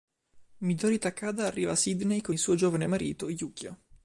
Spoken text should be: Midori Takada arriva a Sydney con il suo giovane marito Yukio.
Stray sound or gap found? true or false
false